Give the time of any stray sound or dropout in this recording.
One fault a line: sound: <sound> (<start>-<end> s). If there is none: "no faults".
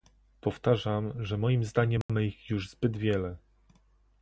sound: dropout (2.0-2.1 s)